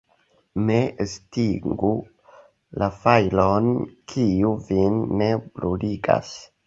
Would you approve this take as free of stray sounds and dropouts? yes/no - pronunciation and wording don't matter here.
yes